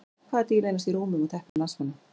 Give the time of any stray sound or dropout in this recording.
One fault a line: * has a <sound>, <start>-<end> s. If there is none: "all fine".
* has a dropout, 1.5-1.6 s